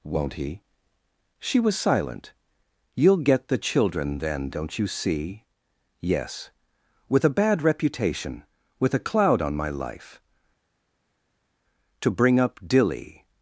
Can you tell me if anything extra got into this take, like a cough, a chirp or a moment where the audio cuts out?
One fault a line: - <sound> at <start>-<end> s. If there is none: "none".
none